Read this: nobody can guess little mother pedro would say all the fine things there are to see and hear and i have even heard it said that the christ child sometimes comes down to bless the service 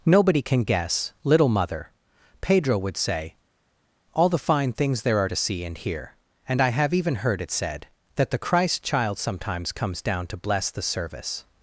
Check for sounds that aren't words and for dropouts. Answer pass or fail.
pass